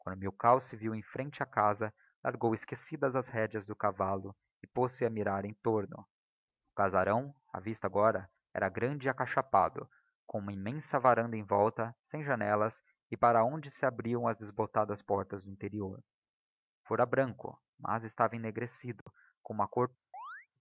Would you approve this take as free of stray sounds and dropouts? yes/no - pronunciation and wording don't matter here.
no